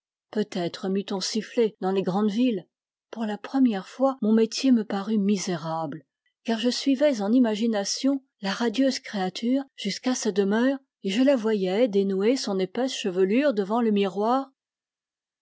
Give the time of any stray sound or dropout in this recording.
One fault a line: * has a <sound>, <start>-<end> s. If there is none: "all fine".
all fine